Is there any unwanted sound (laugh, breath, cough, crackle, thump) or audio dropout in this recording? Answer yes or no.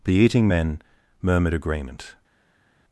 no